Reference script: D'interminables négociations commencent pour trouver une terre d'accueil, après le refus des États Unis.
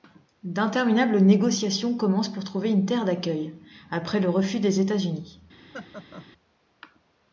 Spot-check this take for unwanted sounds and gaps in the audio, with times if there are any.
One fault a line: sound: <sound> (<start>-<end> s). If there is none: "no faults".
sound: laugh (5.7-6.3 s)